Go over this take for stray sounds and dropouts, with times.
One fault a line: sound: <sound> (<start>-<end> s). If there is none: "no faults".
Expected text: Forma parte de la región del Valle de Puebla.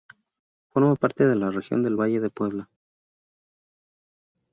no faults